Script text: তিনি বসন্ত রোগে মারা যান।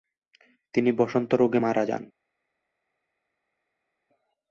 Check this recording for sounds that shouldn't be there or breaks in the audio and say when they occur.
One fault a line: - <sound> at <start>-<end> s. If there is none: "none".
none